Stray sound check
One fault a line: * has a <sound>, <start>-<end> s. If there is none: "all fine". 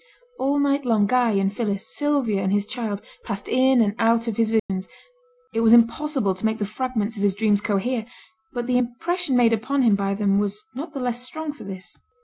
* has a dropout, 4.6-4.7 s